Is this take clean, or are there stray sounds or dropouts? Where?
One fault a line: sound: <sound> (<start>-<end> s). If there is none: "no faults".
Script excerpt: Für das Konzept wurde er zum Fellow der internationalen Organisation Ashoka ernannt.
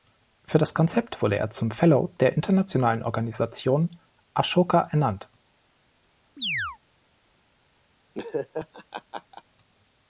sound: chirp (6.4-6.8 s)
sound: laugh (8.1-9.4 s)